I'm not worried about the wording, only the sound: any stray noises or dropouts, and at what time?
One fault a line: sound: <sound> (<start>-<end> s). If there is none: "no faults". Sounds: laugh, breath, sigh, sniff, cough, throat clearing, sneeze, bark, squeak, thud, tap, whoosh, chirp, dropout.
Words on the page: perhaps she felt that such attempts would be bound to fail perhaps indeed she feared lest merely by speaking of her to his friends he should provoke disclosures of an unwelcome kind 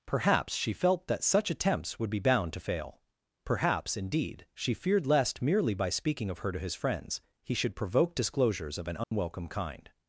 sound: dropout (9.0-9.1 s)